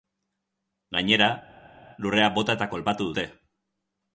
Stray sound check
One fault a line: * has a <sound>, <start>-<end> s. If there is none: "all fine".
all fine